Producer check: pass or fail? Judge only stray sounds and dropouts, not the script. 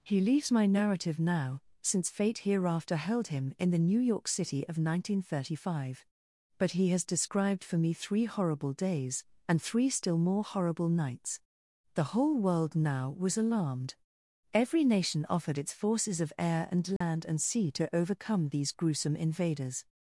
fail